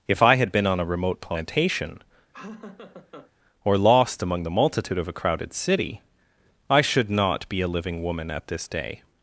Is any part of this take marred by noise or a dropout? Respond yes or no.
yes